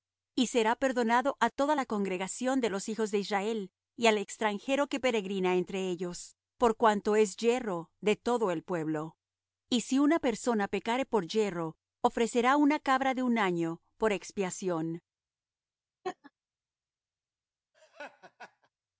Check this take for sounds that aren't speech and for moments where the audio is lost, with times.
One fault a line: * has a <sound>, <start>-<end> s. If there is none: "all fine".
* has a laugh, 16.0-16.3 s
* has a laugh, 17.7-18.7 s